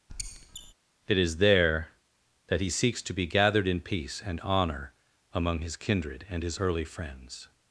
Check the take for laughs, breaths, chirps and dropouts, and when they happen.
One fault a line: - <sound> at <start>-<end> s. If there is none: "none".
- squeak at 0.1-0.7 s